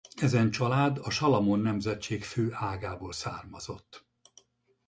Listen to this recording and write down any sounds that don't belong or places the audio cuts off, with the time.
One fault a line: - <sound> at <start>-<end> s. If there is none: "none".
none